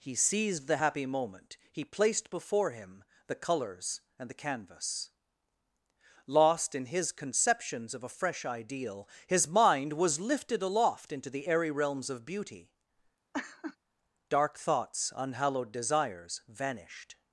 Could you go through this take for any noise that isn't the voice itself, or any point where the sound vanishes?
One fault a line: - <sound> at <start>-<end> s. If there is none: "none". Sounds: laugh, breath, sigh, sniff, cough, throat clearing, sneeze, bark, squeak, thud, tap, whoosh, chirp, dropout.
- laugh at 13.3-13.8 s